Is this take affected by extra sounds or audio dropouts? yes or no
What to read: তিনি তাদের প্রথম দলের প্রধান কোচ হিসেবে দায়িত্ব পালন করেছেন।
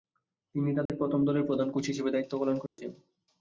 yes